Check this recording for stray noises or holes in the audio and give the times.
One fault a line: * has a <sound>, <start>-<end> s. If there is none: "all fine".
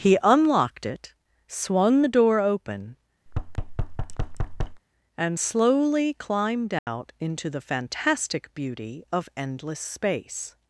* has a thud, 3.3-4.8 s
* has a dropout, 6.8-6.9 s